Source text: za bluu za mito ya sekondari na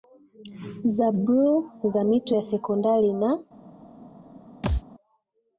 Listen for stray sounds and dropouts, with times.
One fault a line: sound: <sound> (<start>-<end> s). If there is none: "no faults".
sound: thud (4.6-4.8 s)